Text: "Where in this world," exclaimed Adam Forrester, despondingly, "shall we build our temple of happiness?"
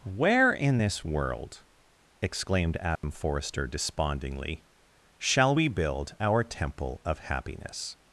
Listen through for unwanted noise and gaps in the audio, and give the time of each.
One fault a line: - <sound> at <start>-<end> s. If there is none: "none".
- dropout at 3.0-3.0 s